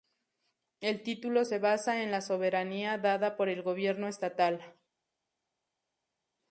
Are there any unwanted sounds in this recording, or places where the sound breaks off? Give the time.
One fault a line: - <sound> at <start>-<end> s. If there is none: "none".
none